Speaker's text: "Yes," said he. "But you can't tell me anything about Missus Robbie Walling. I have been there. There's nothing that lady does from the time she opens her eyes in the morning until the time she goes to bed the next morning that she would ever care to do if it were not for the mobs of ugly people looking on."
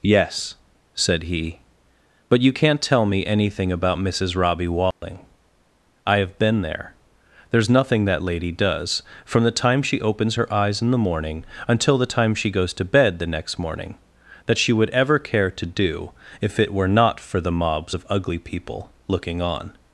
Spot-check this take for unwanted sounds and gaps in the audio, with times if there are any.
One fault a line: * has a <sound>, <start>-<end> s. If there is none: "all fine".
* has a dropout, 4.9-5.0 s